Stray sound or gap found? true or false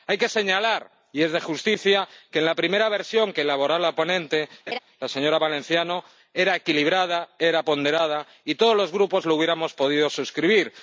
true